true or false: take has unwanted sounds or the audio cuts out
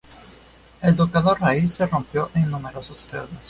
false